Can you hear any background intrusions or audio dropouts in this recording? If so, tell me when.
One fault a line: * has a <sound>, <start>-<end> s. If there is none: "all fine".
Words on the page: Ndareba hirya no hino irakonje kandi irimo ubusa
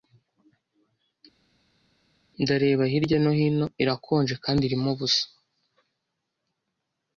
all fine